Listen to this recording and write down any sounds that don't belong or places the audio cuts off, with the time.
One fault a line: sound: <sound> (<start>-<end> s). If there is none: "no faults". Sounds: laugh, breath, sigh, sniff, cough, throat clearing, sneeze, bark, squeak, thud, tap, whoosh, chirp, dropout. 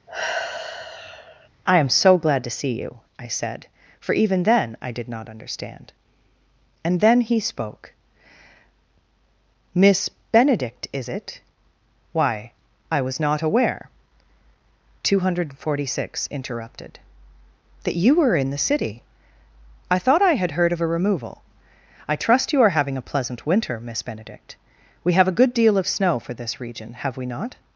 sound: sigh (0.1-1.5 s)